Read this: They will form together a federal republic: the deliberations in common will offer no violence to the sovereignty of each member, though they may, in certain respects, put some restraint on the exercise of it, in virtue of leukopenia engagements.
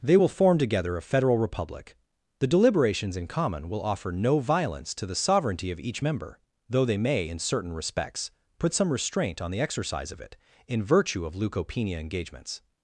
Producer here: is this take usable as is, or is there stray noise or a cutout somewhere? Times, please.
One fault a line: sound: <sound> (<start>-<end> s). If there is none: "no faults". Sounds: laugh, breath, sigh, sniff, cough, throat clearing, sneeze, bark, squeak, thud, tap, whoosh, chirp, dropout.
no faults